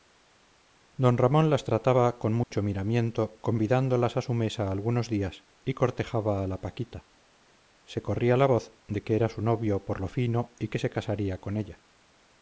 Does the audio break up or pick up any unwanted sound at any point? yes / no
yes